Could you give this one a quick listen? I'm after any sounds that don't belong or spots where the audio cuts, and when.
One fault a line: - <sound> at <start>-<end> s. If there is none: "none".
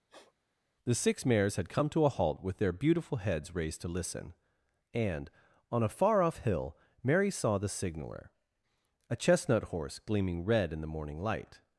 - sniff at 0.1-0.3 s